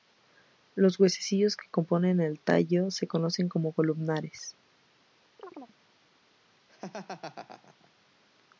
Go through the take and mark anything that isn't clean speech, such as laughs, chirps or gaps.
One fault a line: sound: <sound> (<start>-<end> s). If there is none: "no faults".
sound: chirp (5.4-5.8 s)
sound: laugh (6.7-7.9 s)